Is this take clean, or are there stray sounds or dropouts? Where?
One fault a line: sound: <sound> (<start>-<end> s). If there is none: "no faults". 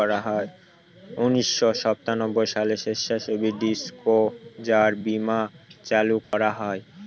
sound: dropout (6.2-6.3 s)